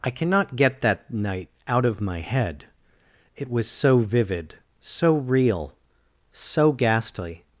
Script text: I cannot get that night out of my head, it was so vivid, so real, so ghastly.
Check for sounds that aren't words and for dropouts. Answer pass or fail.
pass